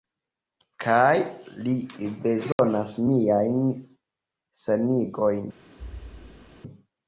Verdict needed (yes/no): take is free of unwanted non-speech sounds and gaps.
no